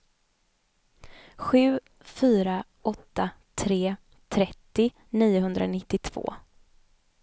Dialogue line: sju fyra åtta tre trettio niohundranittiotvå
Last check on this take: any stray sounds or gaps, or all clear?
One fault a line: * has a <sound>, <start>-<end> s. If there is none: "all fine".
all fine